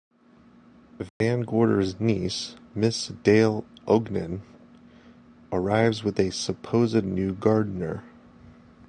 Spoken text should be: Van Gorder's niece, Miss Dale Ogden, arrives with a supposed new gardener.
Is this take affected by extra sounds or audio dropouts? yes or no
yes